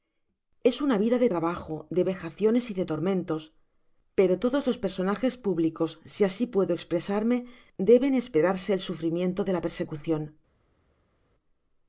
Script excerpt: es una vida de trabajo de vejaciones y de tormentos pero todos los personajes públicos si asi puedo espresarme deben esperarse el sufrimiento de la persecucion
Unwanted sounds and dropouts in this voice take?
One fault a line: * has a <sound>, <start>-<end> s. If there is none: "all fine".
all fine